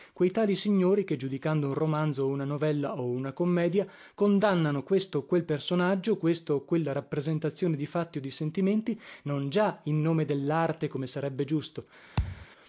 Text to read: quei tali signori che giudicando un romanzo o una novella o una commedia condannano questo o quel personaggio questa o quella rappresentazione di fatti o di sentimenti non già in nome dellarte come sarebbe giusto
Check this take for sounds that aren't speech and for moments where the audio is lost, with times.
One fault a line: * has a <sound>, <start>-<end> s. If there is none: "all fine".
* has a thud, 12.2-12.5 s